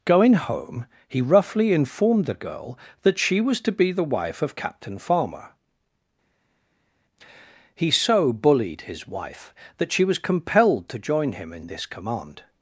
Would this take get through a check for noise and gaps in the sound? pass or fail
pass